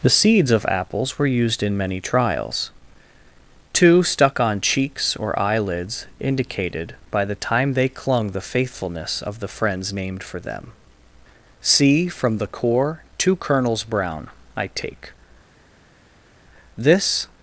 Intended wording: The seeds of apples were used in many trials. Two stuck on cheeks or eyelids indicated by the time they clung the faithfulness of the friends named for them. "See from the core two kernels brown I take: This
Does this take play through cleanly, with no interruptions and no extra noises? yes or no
yes